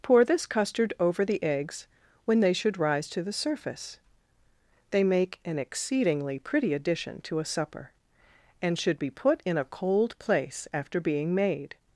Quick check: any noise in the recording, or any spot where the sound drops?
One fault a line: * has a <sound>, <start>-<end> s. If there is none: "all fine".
all fine